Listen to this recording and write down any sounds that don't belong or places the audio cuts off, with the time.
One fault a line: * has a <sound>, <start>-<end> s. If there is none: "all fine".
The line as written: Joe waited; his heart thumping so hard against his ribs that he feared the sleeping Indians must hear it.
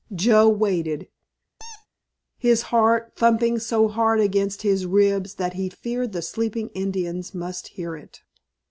* has a squeak, 1.6-1.9 s